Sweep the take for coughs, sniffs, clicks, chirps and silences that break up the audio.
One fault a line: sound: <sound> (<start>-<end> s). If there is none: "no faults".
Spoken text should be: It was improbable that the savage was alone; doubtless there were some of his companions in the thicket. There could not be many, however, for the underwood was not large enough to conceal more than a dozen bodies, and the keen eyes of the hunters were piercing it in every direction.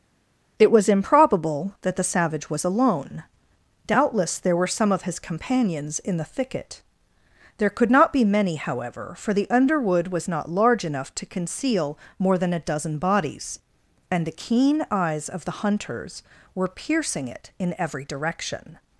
no faults